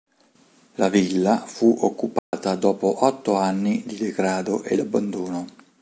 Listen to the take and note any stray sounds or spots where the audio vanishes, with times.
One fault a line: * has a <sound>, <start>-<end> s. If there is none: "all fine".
* has a dropout, 2.2-2.3 s